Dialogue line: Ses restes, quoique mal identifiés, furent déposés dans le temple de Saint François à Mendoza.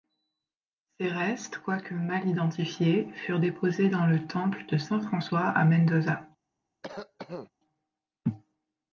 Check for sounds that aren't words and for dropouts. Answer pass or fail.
fail